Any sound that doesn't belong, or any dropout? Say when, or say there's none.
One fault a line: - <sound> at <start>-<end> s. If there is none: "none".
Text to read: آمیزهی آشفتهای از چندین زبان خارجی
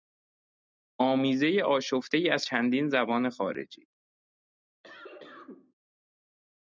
- cough at 4.8-5.7 s